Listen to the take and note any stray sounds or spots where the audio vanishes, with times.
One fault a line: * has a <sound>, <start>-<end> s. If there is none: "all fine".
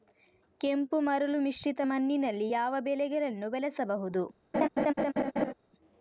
* has a laugh, 4.5-5.5 s